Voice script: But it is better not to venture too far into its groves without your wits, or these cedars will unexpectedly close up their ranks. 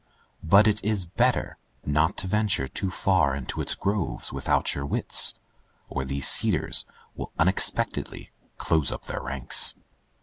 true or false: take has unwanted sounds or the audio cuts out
false